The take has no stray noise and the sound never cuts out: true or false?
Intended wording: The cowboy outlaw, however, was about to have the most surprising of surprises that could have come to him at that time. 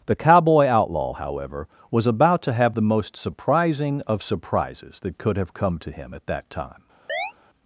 false